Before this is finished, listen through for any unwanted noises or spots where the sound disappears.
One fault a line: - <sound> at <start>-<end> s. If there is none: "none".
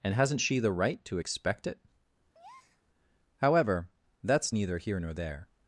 - breath at 2.3-2.8 s